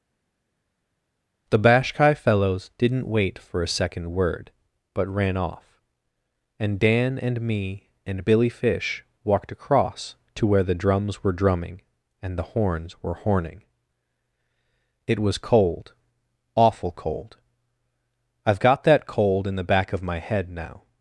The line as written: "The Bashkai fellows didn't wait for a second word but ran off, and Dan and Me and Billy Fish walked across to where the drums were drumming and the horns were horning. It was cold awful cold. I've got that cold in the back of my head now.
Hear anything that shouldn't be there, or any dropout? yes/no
no